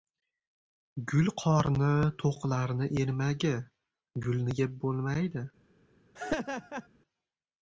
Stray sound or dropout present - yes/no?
yes